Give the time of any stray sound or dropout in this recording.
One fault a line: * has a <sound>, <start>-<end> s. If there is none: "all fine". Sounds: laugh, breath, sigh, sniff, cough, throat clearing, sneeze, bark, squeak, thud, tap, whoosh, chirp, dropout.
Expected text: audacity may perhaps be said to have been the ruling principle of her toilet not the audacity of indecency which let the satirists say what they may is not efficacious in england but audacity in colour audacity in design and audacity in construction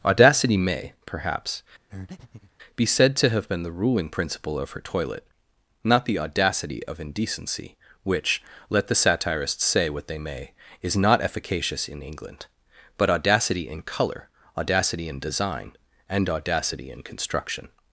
* has a breath, 1.9-2.5 s